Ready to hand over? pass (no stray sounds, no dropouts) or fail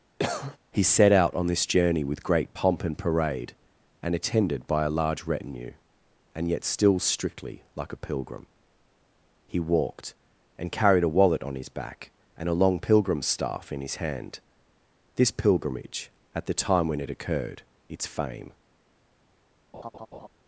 fail